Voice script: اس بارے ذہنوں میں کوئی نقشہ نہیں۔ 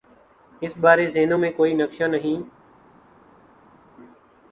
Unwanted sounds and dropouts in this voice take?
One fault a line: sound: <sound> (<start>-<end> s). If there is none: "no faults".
no faults